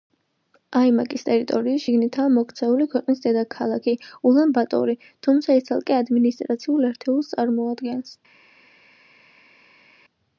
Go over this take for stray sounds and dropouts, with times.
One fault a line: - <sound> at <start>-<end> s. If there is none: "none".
none